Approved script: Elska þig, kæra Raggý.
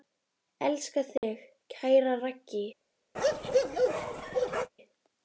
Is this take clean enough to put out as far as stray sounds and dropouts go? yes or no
no